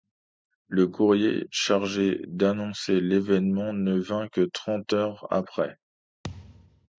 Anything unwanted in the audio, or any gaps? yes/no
yes